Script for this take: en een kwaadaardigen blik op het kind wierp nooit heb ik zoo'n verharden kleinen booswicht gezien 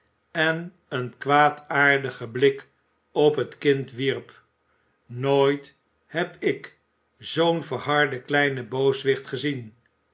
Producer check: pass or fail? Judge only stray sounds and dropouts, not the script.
pass